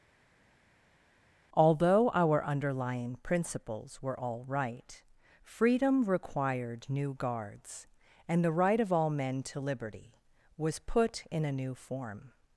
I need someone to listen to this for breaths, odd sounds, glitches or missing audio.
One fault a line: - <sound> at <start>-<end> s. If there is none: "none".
none